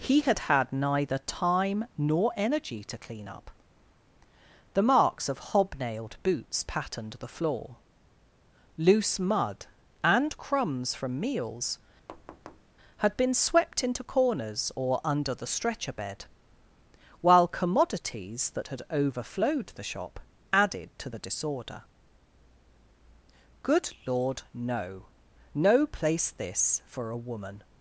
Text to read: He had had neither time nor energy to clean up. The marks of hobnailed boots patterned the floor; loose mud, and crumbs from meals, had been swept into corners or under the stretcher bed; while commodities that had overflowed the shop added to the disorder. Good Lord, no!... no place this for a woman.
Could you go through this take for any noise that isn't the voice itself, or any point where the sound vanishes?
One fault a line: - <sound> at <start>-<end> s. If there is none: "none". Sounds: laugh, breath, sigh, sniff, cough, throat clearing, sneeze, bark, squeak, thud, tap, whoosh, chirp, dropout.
- thud at 12.1-12.7 s